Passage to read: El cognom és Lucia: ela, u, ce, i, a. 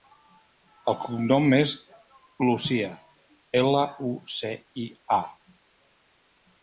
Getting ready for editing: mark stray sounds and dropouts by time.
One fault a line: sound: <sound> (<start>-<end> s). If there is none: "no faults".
no faults